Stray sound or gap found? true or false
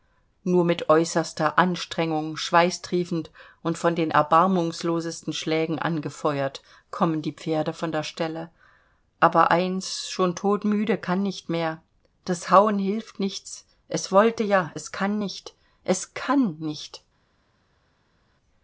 false